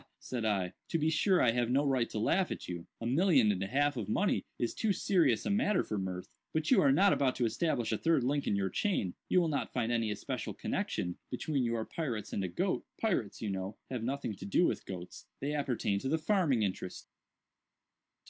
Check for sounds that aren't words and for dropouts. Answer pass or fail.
pass